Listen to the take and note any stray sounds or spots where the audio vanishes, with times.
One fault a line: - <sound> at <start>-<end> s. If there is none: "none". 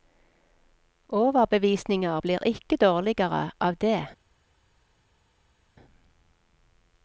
none